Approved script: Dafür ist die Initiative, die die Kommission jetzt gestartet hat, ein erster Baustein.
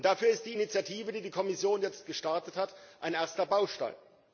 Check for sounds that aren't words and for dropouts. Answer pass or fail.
pass